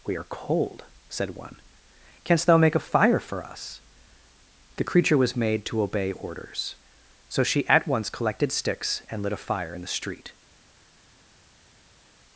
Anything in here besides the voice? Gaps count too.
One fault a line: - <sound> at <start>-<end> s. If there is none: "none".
none